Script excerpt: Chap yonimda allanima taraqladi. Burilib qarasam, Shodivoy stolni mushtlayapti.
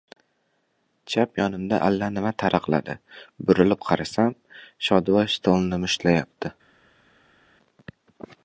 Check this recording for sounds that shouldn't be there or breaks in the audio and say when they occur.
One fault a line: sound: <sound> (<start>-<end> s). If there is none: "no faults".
no faults